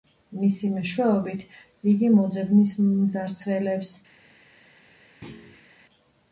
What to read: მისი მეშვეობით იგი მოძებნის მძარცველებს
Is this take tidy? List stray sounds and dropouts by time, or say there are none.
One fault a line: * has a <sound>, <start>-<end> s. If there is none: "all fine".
* has a thud, 5.2-5.7 s